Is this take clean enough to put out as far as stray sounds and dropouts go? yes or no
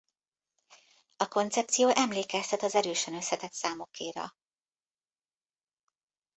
yes